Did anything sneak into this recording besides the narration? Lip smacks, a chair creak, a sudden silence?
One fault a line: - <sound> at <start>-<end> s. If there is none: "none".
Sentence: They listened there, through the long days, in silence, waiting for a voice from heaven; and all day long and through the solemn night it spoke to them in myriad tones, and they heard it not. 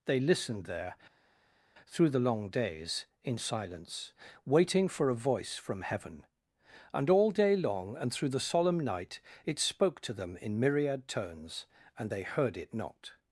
none